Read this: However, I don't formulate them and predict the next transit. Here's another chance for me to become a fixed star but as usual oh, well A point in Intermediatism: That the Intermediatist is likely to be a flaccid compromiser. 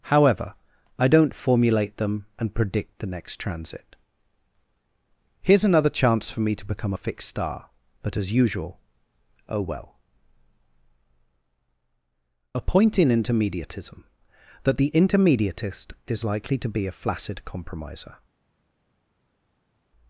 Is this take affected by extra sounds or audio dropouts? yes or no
no